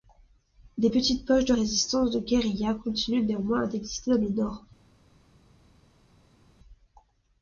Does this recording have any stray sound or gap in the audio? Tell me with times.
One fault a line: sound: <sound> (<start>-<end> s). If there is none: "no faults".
no faults